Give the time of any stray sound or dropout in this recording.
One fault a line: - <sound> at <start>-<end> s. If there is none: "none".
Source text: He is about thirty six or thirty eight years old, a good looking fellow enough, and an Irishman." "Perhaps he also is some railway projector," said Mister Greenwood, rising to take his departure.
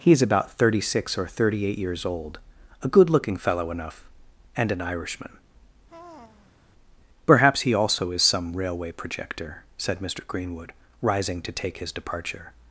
- sigh at 5.9-6.6 s